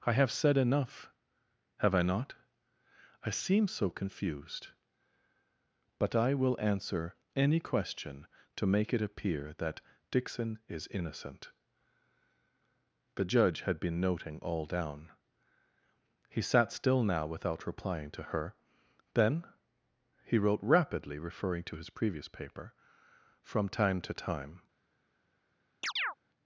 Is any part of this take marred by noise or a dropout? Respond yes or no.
yes